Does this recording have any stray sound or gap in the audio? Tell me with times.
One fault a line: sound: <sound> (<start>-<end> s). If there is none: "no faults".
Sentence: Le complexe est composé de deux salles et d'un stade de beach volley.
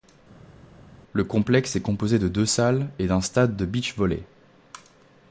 no faults